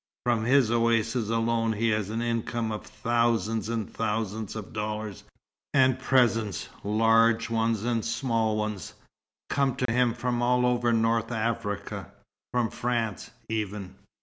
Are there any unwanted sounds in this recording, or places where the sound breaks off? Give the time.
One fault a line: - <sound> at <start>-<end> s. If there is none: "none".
- dropout at 9.9-9.9 s